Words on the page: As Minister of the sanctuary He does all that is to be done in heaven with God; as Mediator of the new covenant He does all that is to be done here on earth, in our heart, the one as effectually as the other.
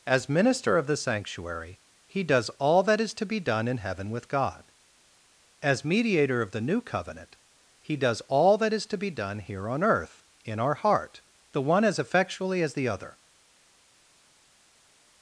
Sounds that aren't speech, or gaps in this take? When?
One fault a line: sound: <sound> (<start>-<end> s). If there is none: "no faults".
no faults